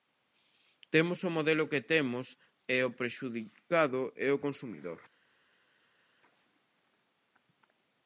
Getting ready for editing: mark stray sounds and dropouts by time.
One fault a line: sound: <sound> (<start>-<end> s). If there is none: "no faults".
no faults